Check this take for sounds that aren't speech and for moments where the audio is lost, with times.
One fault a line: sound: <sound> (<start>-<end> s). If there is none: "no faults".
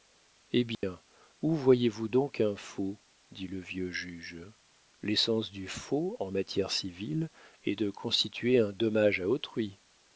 sound: dropout (0.7-0.8 s)